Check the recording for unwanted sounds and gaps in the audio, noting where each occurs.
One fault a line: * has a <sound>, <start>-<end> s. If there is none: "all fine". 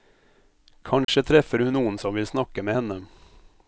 * has a dropout, 1.0-1.1 s